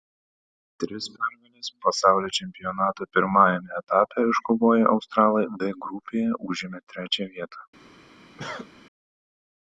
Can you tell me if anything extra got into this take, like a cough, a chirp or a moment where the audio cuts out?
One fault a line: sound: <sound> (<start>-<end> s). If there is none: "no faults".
sound: cough (8.4-8.7 s)